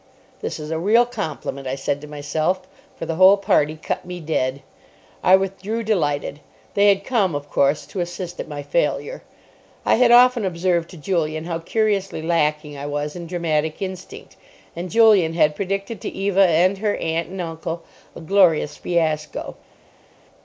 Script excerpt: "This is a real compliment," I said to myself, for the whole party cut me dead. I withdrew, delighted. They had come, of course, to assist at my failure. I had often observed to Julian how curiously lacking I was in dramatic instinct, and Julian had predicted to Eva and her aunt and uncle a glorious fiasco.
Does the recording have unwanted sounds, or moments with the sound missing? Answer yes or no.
no